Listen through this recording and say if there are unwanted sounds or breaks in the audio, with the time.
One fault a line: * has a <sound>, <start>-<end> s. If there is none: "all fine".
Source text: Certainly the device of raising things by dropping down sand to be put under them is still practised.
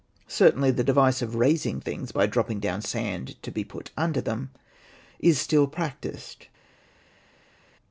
all fine